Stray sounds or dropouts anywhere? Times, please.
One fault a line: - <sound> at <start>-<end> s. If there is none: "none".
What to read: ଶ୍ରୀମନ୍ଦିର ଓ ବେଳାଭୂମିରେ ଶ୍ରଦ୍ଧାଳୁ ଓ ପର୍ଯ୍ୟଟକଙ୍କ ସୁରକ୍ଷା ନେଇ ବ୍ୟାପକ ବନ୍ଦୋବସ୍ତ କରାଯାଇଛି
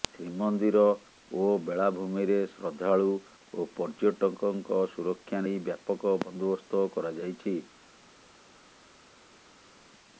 none